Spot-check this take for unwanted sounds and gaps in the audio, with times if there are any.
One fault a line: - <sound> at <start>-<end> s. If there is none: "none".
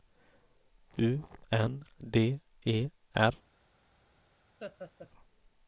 - laugh at 4.6-5.1 s